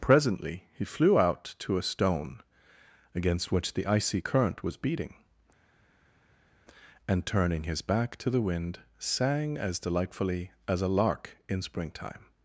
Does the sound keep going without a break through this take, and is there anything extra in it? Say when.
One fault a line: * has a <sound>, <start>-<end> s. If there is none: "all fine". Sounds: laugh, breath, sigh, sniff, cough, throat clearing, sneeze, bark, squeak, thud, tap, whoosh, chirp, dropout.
all fine